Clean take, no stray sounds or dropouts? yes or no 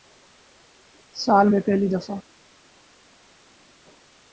yes